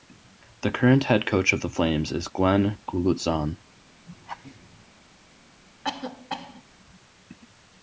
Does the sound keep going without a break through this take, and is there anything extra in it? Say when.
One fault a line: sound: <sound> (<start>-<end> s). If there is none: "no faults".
sound: laugh (4.1-4.8 s)
sound: cough (5.8-6.6 s)